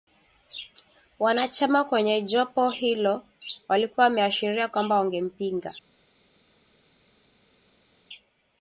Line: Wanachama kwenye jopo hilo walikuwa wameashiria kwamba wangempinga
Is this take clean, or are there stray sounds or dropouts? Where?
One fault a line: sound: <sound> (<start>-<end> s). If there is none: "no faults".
no faults